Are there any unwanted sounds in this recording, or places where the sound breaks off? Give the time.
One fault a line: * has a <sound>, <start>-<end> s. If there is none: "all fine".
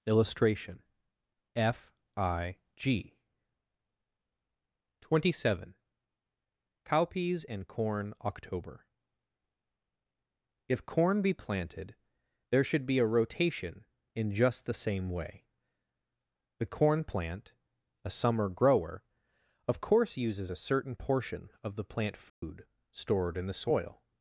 * has a dropout, 22.3-22.4 s